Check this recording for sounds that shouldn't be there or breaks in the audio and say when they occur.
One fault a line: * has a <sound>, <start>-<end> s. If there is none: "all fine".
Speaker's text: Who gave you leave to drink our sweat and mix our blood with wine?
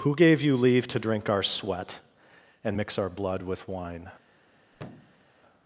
* has a thud, 4.7-5.2 s